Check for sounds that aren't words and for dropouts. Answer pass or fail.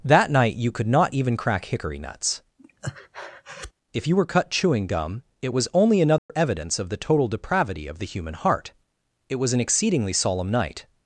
fail